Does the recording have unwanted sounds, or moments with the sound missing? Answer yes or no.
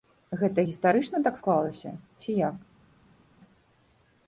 no